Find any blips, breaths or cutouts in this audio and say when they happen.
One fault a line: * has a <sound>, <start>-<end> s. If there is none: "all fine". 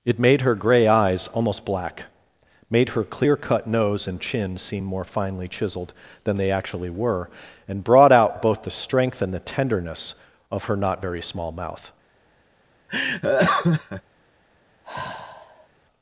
* has a laugh, 12.9-14.0 s
* has a sigh, 14.8-15.7 s